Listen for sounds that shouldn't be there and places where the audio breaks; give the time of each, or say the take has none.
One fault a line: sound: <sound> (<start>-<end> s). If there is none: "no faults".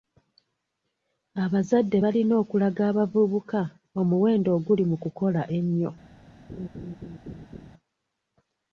sound: laugh (6.5-7.7 s)